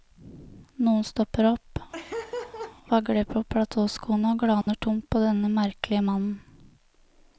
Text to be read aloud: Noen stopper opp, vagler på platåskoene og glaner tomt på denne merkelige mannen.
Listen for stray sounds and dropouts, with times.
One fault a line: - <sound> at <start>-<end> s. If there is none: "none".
- laugh at 1.9-2.8 s
- dropout at 4.6-4.7 s